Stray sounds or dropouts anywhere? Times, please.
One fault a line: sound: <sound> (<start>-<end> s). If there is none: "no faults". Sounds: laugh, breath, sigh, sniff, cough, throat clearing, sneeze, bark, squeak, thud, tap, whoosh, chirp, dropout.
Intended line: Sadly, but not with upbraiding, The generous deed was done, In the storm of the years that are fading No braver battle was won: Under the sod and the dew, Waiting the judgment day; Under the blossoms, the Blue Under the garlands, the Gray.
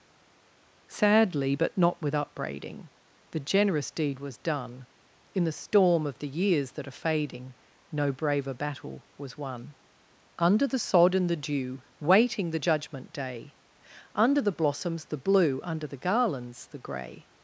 no faults